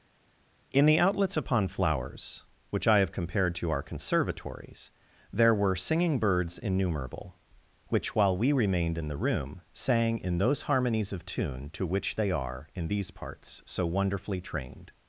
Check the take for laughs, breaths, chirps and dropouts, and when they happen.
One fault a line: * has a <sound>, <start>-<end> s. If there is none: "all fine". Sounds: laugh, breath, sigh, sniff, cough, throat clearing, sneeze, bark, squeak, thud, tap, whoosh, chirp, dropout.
all fine